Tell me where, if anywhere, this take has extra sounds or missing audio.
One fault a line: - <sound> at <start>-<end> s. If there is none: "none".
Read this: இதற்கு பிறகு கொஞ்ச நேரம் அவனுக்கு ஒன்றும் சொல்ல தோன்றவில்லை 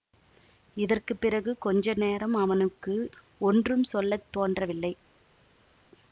none